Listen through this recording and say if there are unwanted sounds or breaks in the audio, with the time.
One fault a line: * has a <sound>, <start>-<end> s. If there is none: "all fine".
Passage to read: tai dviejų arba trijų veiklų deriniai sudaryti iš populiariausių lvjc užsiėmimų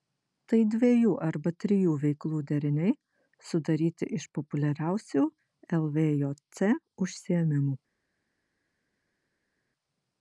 all fine